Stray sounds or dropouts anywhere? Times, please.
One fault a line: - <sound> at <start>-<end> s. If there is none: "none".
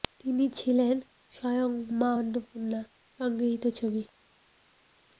none